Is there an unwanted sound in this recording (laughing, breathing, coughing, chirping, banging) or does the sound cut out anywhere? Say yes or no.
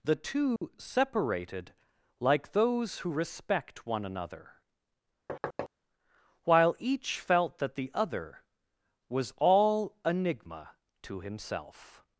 yes